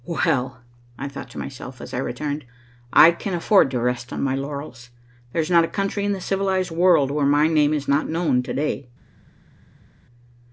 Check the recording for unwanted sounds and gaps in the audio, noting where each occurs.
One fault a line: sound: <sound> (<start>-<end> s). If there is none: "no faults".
no faults